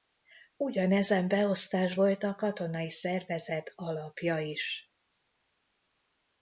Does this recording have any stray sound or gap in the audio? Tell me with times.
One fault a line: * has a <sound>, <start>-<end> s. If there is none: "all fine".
all fine